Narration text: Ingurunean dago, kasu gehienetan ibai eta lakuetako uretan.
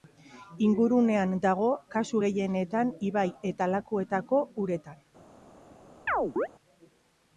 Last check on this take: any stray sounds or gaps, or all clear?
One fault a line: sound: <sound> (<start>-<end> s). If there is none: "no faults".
sound: chirp (6.1-6.5 s)